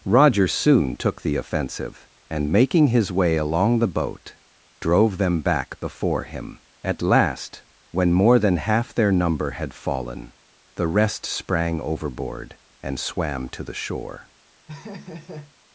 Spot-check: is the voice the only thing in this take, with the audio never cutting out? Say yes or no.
no